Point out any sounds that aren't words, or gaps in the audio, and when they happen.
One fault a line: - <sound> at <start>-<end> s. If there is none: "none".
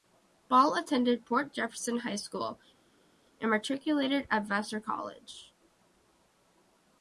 none